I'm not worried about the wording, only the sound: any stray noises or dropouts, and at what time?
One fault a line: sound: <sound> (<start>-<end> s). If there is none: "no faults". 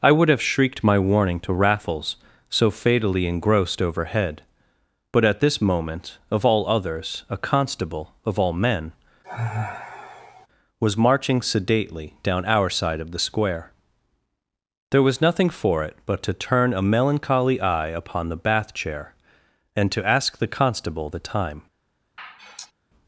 sound: sigh (9.2-10.5 s)
sound: sigh (22.2-22.7 s)